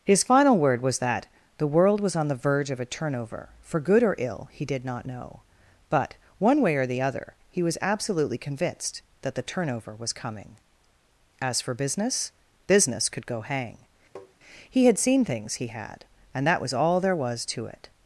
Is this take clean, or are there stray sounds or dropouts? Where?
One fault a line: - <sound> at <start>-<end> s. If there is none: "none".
- tap at 14.2-14.4 s